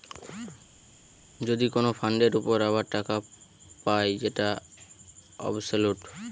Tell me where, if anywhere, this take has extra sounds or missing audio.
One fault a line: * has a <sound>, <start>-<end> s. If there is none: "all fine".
all fine